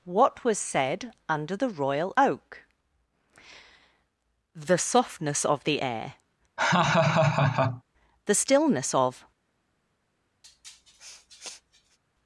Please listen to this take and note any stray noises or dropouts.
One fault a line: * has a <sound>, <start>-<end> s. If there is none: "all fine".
* has a laugh, 6.6-7.8 s
* has a sniff, 10.4-12.0 s